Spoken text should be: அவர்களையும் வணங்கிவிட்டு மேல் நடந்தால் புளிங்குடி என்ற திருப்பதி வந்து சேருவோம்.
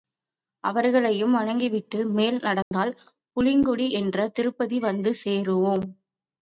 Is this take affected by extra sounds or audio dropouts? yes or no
yes